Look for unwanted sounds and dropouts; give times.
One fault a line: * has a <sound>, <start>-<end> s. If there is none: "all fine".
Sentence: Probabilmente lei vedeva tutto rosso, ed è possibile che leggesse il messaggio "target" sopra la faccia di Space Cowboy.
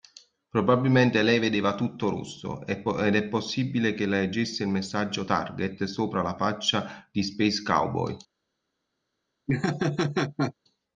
* has a laugh, 9.5-10.5 s